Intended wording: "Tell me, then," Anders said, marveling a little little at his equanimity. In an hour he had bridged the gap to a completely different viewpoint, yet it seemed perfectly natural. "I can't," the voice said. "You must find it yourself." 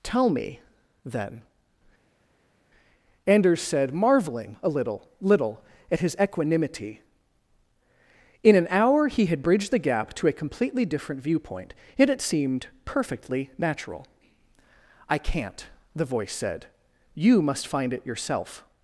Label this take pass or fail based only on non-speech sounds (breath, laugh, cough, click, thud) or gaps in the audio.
pass